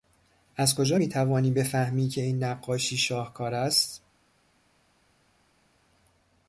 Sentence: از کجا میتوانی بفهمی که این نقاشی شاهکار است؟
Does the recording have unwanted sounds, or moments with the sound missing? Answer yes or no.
no